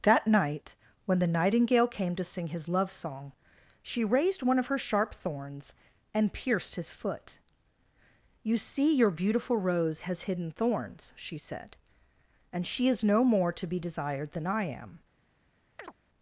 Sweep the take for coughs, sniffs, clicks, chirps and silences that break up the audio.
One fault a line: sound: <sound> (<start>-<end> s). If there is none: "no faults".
sound: chirp (15.8-15.9 s)